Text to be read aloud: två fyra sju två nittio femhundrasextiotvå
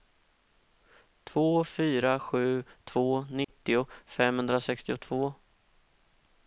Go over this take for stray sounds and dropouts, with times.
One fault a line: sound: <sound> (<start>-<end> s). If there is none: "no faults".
sound: dropout (3.4-3.5 s)